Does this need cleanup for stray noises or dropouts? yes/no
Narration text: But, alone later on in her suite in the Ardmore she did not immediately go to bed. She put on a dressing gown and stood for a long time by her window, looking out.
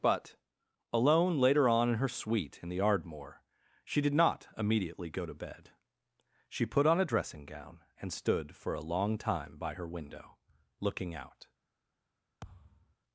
yes